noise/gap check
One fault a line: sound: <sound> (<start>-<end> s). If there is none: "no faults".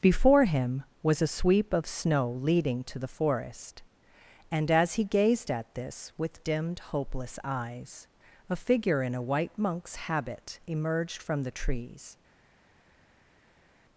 no faults